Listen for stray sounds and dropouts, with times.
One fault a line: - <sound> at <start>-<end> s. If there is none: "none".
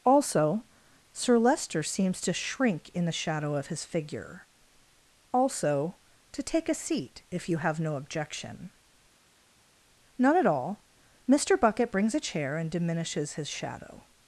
none